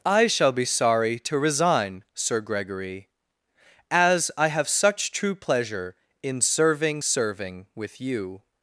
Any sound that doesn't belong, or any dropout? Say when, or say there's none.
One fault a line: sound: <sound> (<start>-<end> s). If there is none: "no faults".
no faults